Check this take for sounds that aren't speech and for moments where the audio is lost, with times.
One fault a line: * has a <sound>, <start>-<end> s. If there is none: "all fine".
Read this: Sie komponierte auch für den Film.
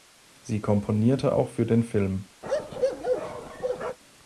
* has a bark, 2.4-4.0 s